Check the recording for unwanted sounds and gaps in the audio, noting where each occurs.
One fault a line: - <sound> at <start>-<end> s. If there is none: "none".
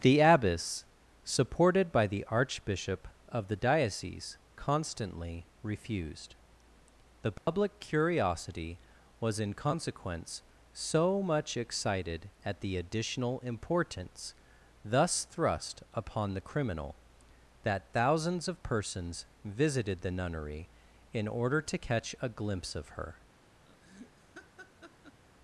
- dropout at 7.4-7.5 s
- laugh at 23.7-25.2 s